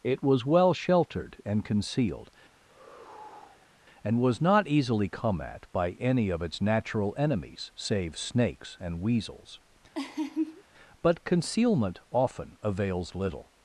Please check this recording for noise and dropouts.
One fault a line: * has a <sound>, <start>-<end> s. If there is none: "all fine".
* has a sigh, 2.6-3.7 s
* has a laugh, 9.9-10.6 s